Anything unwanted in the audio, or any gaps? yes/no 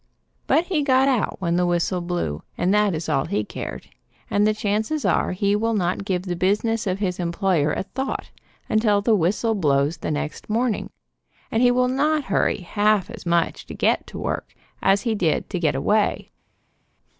no